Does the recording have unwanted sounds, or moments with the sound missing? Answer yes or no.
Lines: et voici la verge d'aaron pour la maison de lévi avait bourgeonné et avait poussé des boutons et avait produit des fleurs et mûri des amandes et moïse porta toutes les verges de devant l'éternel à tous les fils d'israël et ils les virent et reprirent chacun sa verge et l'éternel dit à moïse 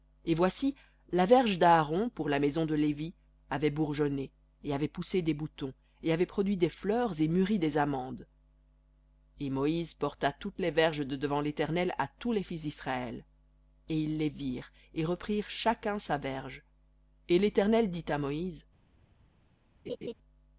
yes